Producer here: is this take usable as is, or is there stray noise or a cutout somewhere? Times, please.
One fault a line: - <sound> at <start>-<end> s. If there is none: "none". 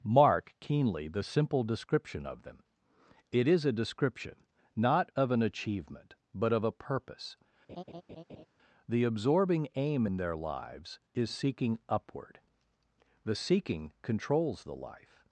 - laugh at 7.7-8.5 s